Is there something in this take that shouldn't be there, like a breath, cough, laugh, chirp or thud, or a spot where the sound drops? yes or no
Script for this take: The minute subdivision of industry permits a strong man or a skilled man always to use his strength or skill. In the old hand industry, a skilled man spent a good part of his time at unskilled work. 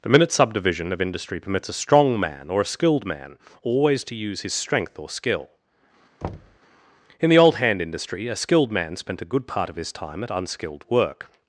yes